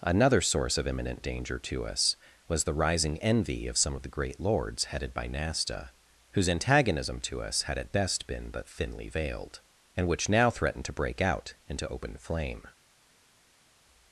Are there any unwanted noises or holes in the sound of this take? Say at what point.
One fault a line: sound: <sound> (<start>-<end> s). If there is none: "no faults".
no faults